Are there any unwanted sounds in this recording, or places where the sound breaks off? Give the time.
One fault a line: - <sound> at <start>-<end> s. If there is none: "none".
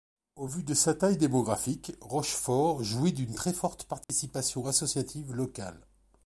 - dropout at 4.0-4.1 s